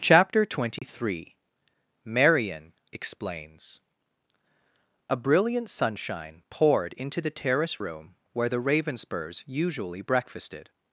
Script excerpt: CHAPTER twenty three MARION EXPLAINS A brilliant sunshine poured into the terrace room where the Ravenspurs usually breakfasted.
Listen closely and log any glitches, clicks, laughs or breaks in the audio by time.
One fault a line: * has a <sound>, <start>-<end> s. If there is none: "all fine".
* has a dropout, 0.8-0.8 s